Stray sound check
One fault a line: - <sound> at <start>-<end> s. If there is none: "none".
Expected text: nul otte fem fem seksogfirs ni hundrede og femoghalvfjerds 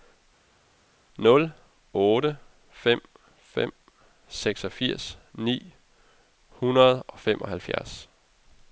none